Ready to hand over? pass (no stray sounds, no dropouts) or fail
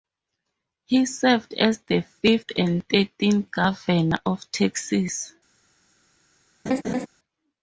fail